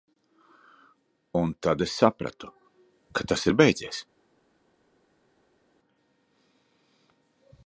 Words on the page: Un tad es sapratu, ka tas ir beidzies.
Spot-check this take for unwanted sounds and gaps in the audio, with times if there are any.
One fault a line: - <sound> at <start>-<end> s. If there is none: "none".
none